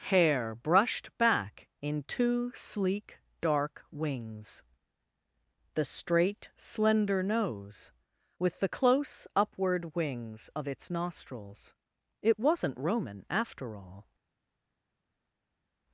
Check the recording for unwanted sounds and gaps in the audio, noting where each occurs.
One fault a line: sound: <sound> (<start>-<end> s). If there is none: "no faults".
no faults